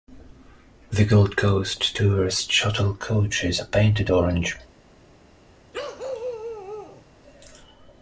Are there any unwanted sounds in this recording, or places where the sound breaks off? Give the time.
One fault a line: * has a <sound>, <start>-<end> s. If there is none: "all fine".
* has a bark, 5.7-7.0 s